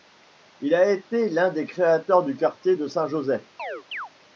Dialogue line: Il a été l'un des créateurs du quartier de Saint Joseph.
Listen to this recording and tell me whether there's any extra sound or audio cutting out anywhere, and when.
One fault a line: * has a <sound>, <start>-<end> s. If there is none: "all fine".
* has a chirp, 3.6-4.1 s